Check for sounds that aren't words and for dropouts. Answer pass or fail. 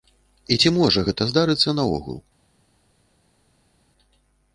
pass